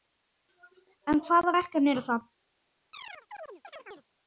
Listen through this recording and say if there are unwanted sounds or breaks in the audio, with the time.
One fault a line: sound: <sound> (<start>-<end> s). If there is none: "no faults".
sound: chirp (2.9-4.1 s)